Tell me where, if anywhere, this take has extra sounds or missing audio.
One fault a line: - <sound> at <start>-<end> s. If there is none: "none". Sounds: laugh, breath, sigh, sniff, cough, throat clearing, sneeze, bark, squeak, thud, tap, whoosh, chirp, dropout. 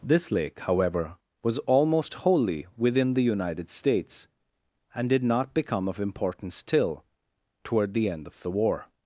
none